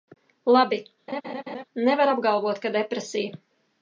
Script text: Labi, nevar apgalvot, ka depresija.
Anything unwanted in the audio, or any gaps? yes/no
yes